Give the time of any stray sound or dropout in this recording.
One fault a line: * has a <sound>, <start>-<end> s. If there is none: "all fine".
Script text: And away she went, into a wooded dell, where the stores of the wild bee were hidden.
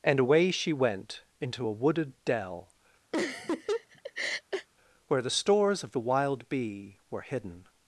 * has a laugh, 3.1-4.7 s